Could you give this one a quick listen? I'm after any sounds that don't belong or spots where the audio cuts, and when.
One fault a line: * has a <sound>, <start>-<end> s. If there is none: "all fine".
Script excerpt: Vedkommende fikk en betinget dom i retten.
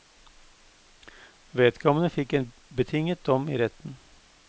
all fine